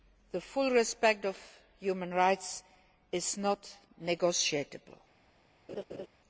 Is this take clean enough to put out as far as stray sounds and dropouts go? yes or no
no